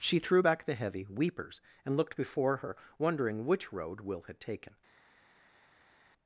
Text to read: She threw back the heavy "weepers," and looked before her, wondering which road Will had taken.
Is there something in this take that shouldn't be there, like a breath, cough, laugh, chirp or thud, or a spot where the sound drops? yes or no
no